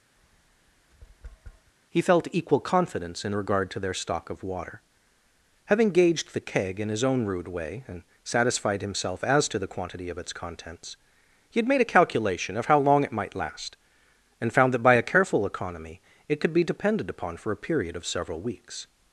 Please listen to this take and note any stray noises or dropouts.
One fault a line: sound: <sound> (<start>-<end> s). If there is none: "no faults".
sound: tap (0.2-1.7 s)